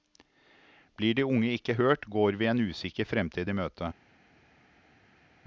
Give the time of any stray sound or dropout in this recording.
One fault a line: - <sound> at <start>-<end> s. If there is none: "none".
none